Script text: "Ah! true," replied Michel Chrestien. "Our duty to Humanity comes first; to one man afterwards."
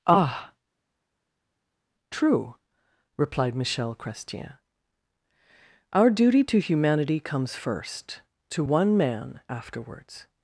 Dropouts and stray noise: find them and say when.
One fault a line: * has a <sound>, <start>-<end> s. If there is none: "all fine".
all fine